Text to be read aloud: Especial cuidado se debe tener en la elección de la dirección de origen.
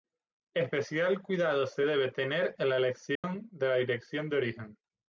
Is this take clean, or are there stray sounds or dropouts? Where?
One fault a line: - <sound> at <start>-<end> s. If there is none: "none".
- dropout at 3.2-3.2 s